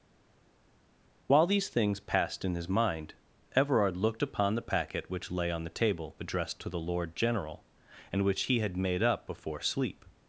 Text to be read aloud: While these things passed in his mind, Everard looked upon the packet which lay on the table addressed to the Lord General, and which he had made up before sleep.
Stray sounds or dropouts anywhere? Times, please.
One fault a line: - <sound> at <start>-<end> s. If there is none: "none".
none